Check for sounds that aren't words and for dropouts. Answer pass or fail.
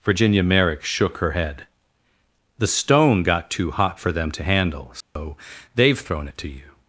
fail